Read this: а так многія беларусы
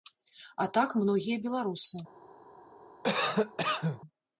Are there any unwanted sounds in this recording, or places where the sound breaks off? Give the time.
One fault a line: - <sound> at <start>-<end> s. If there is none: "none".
- cough at 3.0-4.0 s